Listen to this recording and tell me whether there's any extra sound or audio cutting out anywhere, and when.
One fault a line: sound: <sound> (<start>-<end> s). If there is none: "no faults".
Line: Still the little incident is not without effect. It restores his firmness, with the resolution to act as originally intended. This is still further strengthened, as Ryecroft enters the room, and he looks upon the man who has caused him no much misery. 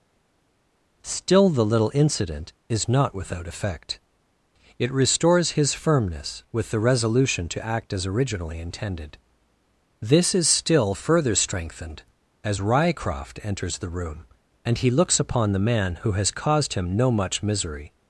no faults